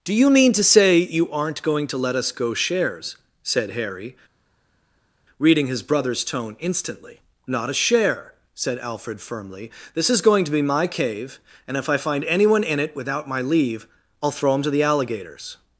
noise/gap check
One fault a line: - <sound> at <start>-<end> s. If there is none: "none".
none